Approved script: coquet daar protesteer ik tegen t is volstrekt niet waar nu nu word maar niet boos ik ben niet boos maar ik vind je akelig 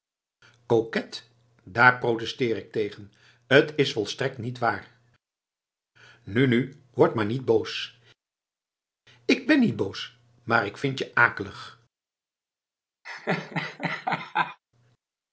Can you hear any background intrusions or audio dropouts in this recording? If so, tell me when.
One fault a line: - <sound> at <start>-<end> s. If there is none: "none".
- laugh at 13.0-14.6 s